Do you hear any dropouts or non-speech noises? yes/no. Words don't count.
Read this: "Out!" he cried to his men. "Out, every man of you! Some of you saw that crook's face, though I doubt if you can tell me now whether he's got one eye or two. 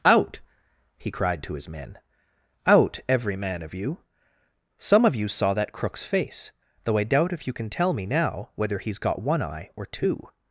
no